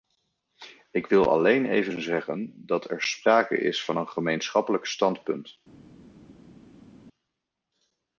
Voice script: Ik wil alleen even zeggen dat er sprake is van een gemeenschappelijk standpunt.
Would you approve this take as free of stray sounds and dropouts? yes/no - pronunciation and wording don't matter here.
yes